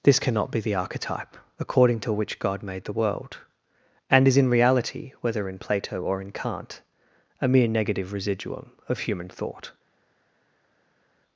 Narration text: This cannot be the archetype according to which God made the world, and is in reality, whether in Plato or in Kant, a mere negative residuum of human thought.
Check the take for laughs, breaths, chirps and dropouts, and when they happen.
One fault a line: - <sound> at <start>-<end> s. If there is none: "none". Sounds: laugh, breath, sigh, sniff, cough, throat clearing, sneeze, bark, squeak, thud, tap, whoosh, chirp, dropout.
none